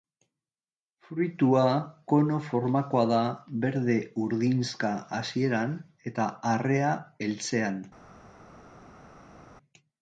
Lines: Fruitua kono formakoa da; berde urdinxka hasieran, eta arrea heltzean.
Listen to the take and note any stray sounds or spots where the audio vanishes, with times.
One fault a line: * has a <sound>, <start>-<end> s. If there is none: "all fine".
all fine